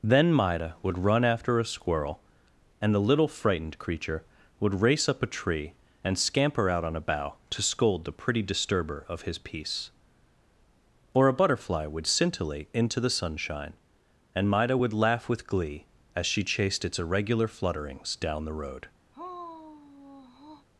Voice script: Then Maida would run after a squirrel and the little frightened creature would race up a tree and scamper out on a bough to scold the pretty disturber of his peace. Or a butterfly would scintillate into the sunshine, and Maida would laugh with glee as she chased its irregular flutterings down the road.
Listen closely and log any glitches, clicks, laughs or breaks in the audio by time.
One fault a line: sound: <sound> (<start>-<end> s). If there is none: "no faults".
sound: sigh (19.1-20.7 s)